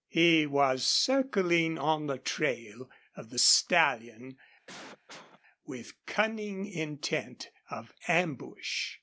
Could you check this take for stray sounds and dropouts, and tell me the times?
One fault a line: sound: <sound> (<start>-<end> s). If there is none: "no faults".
sound: cough (4.7-5.4 s)